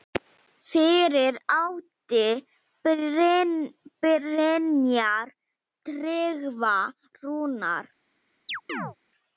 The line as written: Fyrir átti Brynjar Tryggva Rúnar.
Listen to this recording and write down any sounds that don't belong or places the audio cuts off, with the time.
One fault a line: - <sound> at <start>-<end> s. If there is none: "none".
- chirp at 8.5-9.0 s